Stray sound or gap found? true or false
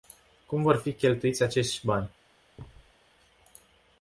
true